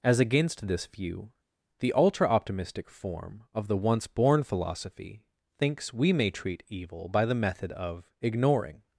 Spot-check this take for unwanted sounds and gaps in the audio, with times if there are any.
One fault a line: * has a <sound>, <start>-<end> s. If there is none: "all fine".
all fine